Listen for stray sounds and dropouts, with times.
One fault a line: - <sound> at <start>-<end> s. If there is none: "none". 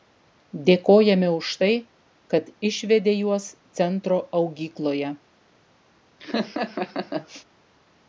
- laugh at 6.2-7.5 s